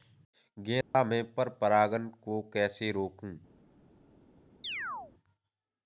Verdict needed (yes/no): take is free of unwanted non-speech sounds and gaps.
no